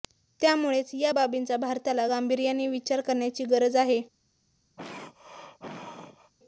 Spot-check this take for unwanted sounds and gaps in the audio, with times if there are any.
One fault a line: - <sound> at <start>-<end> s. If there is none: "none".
- throat clearing at 4.8-6.3 s